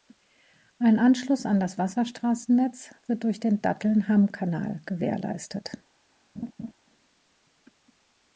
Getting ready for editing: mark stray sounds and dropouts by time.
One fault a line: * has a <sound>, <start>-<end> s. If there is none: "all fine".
* has a laugh, 6.4-6.7 s